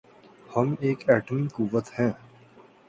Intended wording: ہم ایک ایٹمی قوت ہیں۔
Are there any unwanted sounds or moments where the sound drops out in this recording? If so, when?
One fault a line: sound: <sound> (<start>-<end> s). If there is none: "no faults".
no faults